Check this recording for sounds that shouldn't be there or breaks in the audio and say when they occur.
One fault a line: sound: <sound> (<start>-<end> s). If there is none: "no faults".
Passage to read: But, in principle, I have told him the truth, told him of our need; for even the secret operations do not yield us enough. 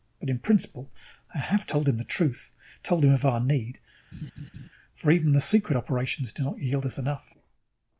sound: laugh (4.1-4.7 s)